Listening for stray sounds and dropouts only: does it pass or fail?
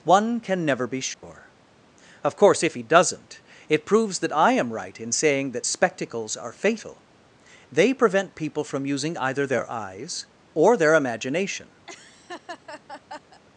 fail